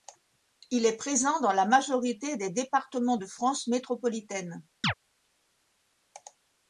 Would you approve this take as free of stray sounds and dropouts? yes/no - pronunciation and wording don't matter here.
no